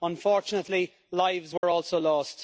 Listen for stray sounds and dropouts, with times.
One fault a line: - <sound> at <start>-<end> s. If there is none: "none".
- dropout at 1.6-1.6 s